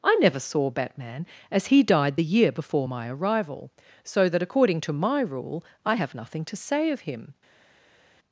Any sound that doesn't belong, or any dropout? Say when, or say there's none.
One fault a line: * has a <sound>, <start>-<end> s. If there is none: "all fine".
all fine